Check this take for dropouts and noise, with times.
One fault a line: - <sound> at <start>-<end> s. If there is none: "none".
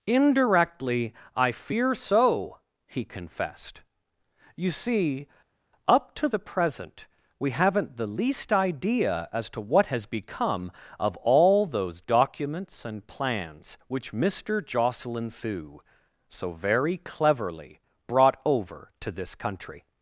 none